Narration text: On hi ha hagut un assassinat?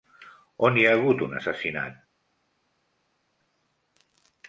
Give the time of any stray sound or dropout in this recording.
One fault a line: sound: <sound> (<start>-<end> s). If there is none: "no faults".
no faults